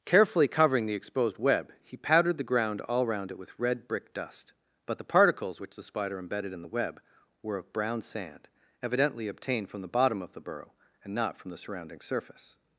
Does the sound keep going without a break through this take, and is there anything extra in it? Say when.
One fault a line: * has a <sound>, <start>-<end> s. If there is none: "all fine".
all fine